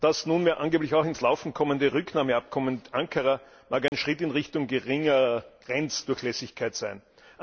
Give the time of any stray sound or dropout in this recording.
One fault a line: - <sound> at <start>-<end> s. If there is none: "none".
- dropout at 3.9-3.9 s